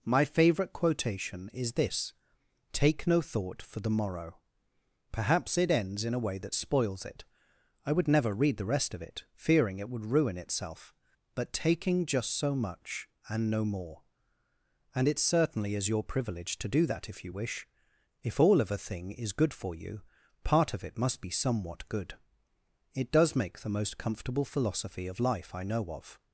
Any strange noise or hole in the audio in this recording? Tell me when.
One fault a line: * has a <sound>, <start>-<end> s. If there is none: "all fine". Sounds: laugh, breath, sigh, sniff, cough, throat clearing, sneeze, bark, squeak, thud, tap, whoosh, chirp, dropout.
all fine